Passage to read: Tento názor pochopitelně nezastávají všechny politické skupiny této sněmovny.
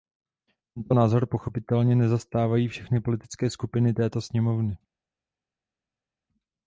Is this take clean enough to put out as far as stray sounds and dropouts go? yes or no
yes